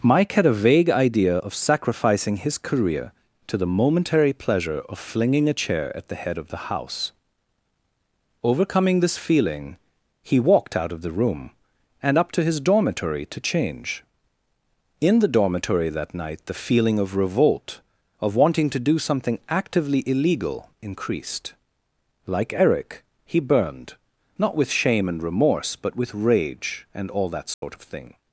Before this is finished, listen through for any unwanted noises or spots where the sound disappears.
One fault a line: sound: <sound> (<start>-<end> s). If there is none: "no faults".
sound: dropout (27.5-27.6 s)